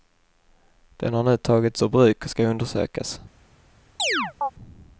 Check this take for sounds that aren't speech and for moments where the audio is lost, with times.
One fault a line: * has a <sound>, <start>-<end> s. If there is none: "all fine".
* has a chirp, 4.0-4.5 s